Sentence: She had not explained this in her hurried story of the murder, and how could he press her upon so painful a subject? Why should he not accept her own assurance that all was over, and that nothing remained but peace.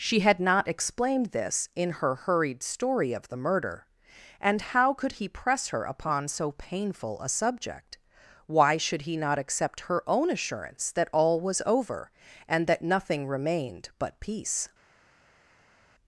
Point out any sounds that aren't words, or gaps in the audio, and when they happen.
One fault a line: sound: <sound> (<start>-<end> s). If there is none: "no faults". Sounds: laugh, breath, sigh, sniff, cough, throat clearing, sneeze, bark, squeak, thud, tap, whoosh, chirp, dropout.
no faults